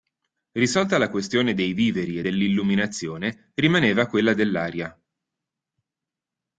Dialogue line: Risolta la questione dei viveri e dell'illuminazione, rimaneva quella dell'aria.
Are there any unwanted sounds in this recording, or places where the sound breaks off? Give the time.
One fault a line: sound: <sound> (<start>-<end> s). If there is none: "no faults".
no faults